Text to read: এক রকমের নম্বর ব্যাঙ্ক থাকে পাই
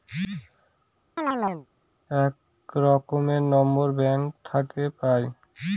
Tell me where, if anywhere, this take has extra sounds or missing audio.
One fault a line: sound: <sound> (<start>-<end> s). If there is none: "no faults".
sound: chirp (1.2-1.7 s)